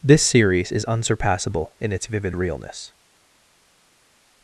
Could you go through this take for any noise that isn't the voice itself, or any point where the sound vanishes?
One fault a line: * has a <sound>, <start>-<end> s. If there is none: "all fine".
all fine